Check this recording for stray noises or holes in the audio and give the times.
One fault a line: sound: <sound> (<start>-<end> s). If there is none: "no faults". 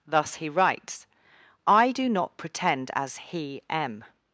no faults